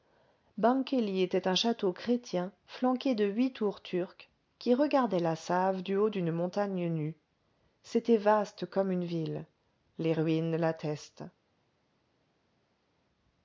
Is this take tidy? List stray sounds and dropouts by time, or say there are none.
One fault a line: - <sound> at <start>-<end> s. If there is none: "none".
none